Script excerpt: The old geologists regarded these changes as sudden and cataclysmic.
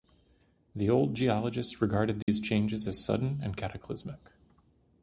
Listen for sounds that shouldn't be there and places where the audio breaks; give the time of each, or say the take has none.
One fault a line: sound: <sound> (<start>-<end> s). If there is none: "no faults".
sound: dropout (2.2-2.3 s)